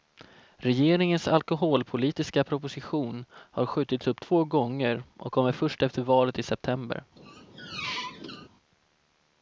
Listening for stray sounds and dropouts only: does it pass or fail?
fail